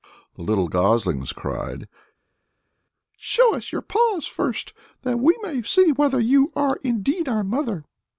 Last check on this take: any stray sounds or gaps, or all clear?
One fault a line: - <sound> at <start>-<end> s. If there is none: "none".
none